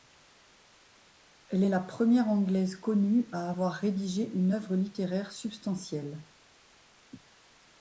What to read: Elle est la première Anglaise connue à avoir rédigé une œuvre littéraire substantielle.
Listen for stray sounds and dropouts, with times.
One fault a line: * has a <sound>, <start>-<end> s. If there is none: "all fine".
all fine